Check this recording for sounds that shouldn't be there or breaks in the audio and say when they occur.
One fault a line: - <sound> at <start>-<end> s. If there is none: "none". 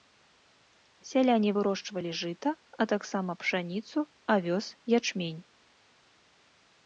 none